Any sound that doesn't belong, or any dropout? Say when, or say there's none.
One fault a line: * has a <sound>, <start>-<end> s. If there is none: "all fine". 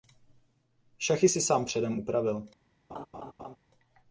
* has a laugh, 2.9-3.6 s